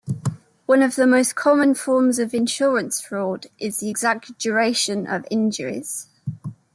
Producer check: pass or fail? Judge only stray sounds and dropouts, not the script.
pass